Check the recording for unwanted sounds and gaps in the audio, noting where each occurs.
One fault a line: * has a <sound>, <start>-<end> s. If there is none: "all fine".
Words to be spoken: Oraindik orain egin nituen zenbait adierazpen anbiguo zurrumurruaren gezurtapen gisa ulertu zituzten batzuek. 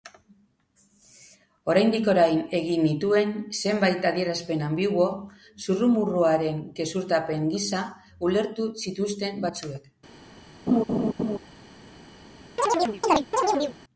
* has a laugh, 10.7-11.4 s
* has a chirp, 12.6-13.8 s